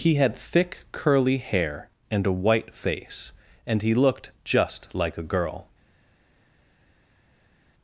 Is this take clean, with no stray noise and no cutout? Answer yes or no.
yes